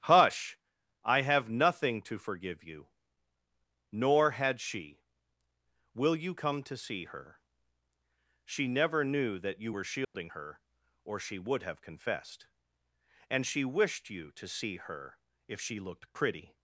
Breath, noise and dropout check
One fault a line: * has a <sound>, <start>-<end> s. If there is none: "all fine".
* has a dropout, 10.0-10.1 s